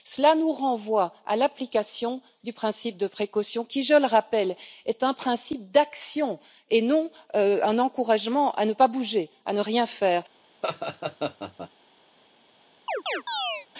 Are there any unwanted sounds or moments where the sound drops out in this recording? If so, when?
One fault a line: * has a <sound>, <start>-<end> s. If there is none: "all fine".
* has a laugh, 10.6-11.7 s
* has a chirp, 12.9-13.7 s